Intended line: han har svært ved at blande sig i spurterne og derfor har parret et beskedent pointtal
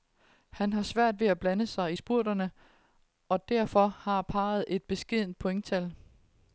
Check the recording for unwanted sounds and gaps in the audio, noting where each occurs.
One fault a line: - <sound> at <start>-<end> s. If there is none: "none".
none